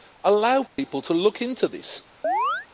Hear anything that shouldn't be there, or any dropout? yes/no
yes